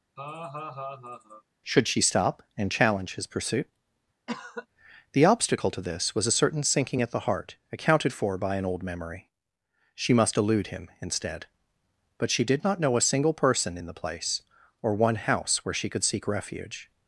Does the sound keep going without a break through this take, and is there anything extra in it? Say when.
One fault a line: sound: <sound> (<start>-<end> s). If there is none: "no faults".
sound: laugh (0.2-1.4 s)
sound: cough (4.3-4.7 s)